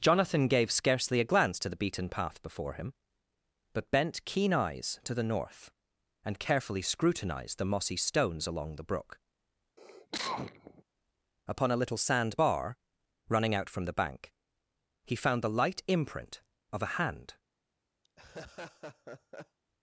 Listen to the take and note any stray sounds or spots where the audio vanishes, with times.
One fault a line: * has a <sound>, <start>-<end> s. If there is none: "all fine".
* has a cough, 9.8-10.8 s
* has a laugh, 18.0-19.6 s